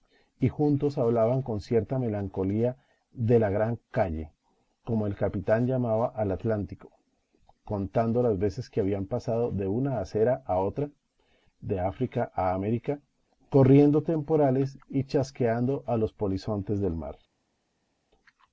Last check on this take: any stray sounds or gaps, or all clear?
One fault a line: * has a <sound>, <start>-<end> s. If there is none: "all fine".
all fine